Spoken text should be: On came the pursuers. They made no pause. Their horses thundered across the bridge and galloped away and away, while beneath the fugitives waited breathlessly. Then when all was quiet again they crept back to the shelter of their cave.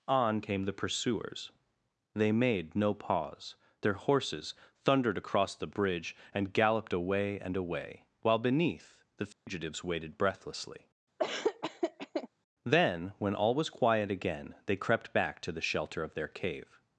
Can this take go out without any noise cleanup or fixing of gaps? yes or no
no